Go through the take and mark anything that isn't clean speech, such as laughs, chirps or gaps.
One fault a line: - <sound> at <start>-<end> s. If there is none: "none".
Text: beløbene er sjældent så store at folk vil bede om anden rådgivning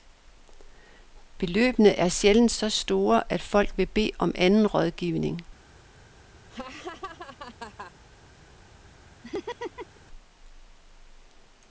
- laugh at 6.5-7.9 s
- laugh at 9.2-10.0 s